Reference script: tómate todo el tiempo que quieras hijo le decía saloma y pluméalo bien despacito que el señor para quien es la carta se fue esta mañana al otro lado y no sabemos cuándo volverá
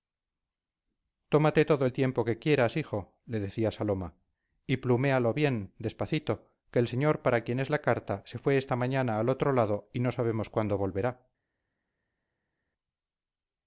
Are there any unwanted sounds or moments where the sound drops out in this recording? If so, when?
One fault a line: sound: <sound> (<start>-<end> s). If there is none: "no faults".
no faults